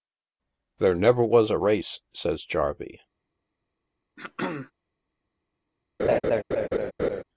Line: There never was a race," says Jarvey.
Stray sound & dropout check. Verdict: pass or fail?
fail